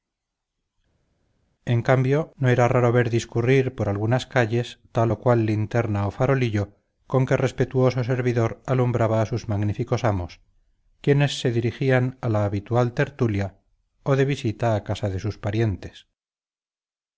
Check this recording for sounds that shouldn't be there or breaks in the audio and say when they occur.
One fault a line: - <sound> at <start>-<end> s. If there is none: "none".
none